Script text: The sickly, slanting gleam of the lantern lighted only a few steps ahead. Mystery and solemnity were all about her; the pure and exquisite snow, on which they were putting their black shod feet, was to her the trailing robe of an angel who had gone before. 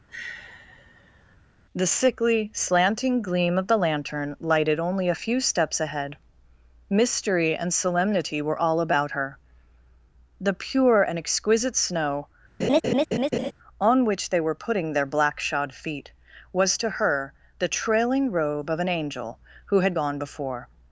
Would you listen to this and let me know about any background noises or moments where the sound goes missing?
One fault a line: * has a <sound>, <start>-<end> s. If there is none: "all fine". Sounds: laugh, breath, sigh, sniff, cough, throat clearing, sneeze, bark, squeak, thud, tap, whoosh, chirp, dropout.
* has a sigh, 0.1-1.4 s
* has a laugh, 12.6-13.5 s